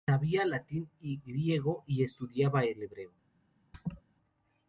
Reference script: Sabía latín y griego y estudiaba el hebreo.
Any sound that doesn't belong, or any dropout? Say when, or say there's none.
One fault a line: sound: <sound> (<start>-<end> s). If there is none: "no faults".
sound: laugh (3.7-4.0 s)